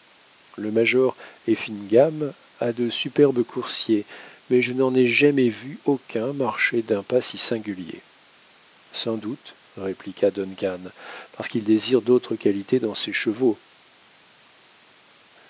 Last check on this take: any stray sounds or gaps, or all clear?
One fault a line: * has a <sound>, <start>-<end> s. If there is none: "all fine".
all fine